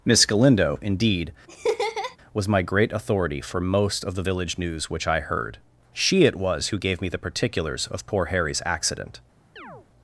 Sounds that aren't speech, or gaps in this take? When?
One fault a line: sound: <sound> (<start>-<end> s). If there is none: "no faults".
sound: laugh (1.5-2.2 s)
sound: chirp (9.6-9.9 s)